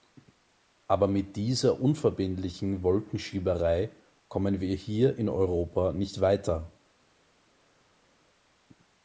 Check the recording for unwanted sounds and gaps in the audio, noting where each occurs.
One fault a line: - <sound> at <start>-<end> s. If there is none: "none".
none